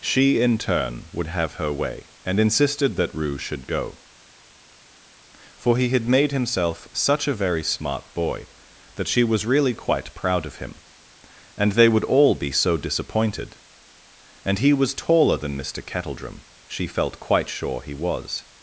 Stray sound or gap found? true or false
false